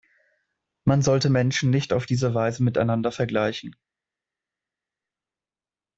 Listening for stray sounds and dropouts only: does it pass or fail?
pass